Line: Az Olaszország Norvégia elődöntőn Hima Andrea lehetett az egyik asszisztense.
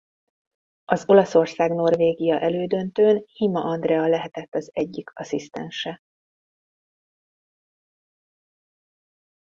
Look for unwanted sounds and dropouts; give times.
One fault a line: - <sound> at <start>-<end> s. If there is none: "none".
none